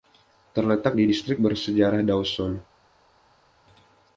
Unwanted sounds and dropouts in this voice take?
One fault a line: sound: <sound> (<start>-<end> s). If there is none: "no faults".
no faults